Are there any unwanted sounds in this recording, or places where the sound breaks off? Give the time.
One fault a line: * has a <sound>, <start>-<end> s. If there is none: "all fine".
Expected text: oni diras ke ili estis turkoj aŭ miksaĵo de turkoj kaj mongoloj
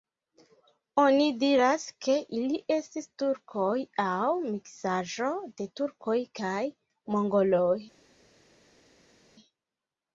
all fine